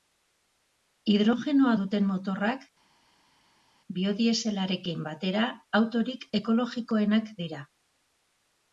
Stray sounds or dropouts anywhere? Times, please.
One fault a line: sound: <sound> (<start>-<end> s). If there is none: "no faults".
no faults